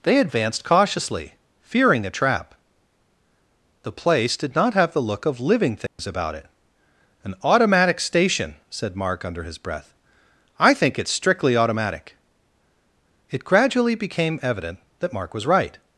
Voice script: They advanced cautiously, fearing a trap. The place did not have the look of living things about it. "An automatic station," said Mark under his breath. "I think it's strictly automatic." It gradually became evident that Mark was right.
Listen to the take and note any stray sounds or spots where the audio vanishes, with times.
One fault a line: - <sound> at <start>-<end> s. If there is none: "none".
- dropout at 5.9-6.0 s